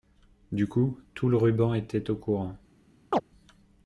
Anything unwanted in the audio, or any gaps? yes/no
yes